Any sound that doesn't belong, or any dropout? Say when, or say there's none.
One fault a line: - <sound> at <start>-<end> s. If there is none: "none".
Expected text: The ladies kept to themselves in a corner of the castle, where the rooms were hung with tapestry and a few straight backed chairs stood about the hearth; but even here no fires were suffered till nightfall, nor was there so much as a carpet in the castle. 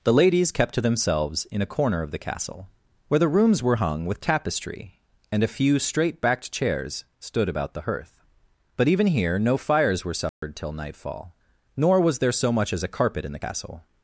- dropout at 10.3-10.4 s